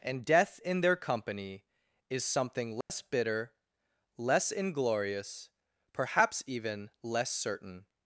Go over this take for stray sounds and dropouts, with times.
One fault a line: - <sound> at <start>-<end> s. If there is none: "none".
- dropout at 2.8-2.9 s